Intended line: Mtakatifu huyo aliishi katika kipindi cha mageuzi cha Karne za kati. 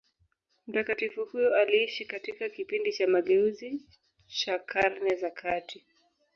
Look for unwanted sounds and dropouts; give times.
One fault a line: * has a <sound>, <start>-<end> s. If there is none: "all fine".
all fine